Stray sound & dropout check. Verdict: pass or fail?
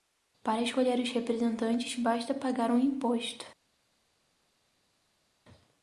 pass